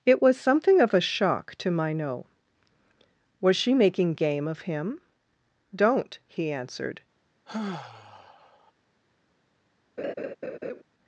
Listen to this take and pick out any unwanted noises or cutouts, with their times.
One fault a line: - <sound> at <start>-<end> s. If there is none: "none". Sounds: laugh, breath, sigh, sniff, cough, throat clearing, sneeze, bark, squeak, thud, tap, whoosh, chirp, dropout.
- sigh at 7.5-8.7 s
- laugh at 10.0-10.8 s